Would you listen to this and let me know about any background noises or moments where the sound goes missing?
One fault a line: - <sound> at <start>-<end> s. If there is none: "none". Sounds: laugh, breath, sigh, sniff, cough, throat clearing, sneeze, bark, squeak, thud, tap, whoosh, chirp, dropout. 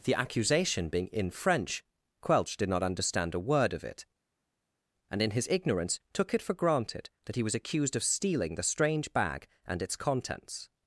none